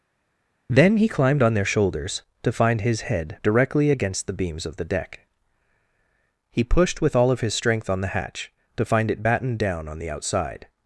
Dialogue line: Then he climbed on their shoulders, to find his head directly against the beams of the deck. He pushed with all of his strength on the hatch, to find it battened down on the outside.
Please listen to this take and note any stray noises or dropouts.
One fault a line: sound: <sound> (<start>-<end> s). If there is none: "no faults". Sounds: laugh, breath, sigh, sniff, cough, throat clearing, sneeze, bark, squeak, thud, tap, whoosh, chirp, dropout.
no faults